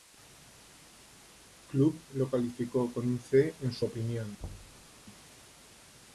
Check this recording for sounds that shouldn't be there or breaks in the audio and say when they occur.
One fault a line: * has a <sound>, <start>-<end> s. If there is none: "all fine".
* has a thud, 4.4-4.9 s